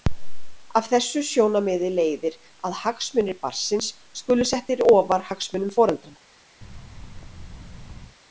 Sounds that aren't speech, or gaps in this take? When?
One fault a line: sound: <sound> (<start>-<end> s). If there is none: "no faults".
sound: thud (6.6-8.2 s)